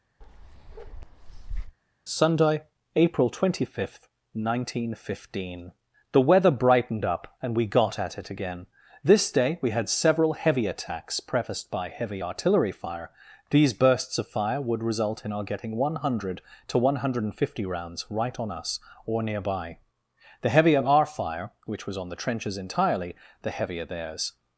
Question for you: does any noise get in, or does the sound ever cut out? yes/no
yes